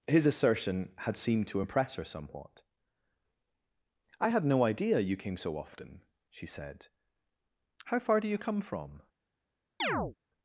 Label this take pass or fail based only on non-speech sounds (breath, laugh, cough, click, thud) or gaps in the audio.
fail